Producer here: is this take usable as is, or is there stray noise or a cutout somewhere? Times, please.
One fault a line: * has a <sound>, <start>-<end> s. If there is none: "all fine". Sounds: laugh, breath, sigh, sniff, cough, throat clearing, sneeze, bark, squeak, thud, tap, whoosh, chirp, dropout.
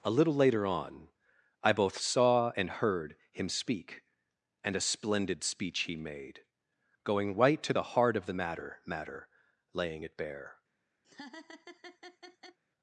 * has a laugh, 11.0-12.6 s